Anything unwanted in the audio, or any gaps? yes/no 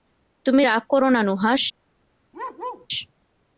yes